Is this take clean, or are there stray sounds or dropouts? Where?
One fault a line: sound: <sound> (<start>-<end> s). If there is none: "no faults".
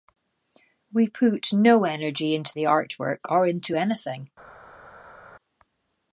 no faults